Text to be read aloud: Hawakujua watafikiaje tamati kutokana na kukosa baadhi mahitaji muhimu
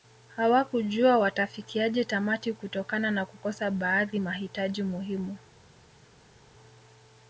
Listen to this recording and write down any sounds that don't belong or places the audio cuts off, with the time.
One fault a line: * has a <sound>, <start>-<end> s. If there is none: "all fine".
all fine